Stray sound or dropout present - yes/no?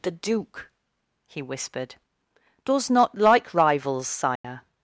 yes